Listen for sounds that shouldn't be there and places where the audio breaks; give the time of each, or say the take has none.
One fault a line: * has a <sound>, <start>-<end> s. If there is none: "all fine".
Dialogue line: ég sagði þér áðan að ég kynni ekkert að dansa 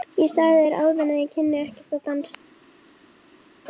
all fine